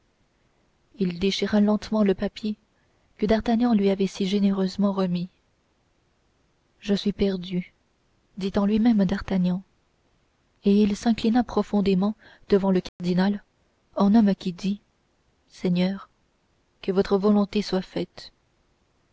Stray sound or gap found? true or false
true